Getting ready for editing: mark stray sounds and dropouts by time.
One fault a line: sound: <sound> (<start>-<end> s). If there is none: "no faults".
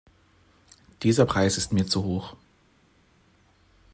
no faults